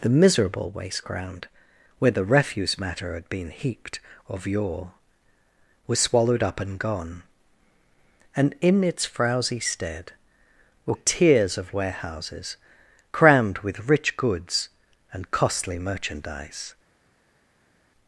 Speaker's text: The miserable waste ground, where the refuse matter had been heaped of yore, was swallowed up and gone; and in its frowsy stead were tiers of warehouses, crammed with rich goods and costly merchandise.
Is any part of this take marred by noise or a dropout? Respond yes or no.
no